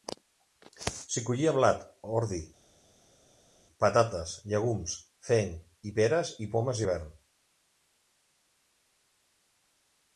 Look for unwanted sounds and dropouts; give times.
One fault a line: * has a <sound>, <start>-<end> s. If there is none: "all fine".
all fine